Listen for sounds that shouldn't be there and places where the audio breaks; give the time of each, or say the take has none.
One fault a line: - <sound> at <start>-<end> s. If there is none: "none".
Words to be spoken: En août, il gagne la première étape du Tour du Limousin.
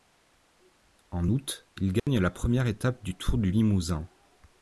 - dropout at 2.0-2.1 s